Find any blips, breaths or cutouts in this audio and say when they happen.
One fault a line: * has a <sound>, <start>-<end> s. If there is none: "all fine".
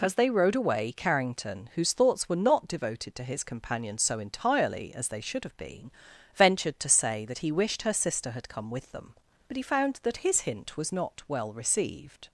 all fine